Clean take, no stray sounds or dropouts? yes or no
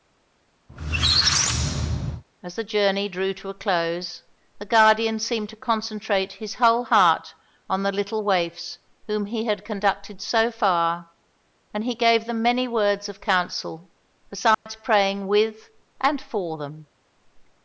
no